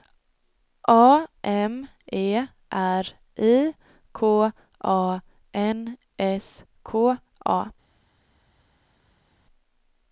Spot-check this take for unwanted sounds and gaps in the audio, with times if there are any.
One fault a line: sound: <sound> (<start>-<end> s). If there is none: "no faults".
no faults